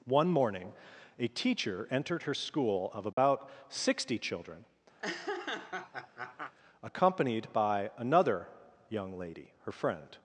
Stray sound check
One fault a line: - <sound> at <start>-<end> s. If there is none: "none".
- dropout at 3.1-3.2 s
- laugh at 5.0-6.5 s